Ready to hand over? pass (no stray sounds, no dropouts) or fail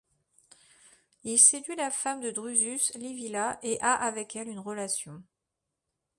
pass